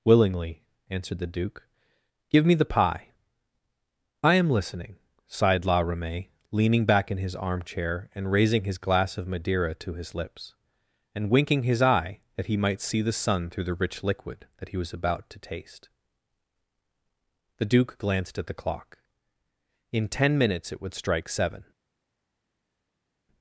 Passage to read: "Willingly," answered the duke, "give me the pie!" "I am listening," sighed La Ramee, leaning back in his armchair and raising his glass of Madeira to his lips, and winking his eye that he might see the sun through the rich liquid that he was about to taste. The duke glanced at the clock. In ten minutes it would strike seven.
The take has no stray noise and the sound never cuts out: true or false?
true